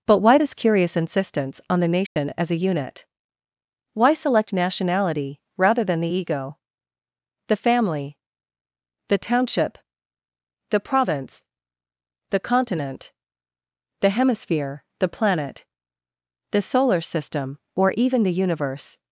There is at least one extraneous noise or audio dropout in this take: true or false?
true